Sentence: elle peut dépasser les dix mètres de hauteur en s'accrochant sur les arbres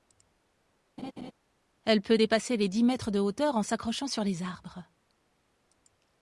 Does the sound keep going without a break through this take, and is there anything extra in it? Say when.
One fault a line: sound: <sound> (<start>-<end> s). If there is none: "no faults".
sound: laugh (1.0-1.3 s)